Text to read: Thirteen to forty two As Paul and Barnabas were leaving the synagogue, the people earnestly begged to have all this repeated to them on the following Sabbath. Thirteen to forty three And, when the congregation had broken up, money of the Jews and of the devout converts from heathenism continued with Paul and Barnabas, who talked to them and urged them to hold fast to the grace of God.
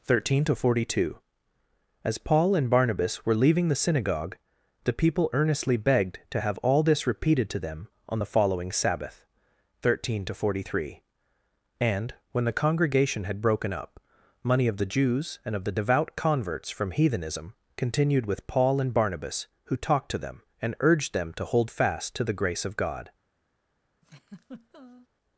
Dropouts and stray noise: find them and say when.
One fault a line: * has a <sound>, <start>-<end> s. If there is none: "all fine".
* has a laugh, 24.0-25.1 s